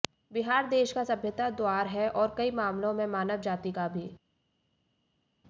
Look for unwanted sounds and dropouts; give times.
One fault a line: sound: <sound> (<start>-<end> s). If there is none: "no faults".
no faults